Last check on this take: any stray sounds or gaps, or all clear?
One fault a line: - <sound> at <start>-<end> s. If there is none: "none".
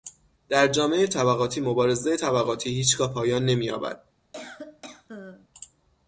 - cough at 4.3-5.5 s